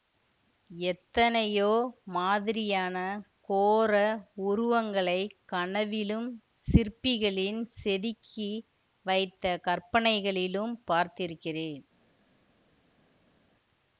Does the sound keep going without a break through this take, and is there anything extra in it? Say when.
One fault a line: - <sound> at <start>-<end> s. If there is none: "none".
none